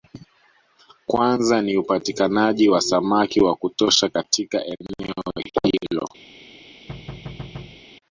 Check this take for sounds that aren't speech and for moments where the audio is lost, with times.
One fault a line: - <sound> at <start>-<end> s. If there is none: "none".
- thud at 6.9-7.8 s